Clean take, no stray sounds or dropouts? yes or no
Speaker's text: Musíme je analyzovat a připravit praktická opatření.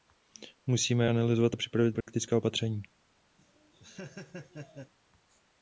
no